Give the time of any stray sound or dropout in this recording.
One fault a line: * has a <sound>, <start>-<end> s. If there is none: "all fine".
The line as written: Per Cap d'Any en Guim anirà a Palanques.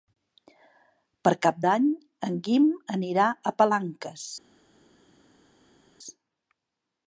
all fine